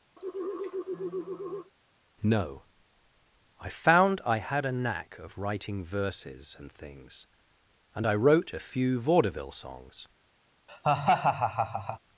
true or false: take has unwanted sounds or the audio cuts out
true